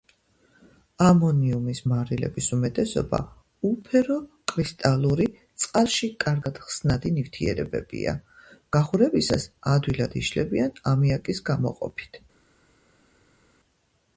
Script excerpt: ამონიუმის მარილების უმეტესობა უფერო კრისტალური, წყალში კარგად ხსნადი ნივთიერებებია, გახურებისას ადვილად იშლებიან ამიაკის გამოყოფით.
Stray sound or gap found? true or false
false